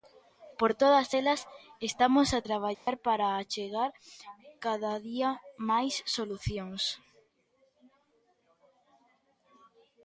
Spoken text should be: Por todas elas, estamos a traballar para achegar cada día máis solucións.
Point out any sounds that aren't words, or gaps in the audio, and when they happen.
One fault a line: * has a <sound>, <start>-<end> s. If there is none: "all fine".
* has a dropout, 2.7-2.9 s